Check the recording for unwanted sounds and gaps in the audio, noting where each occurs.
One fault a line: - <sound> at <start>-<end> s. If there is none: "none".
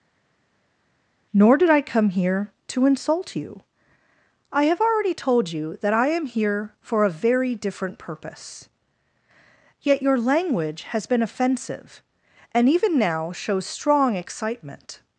none